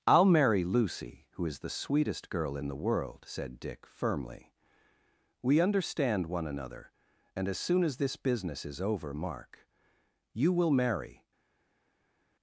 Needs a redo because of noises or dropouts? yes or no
no